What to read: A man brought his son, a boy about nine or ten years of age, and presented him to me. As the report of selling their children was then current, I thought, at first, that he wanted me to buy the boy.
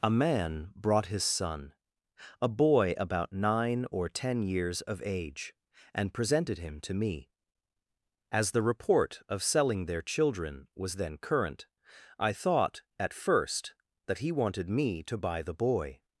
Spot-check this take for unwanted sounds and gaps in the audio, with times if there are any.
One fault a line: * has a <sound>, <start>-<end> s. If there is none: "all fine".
all fine